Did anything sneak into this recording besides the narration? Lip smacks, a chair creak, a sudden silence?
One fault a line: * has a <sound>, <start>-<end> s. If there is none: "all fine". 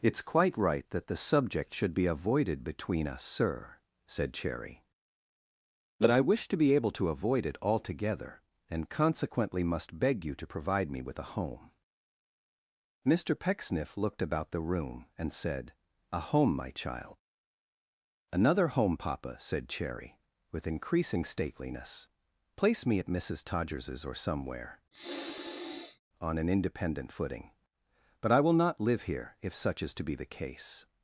* has a sniff, 24.9-26.0 s